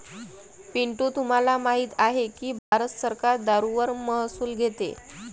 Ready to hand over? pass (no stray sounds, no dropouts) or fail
fail